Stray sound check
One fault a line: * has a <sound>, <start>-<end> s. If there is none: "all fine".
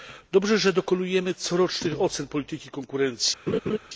* has a laugh, 3.5-3.8 s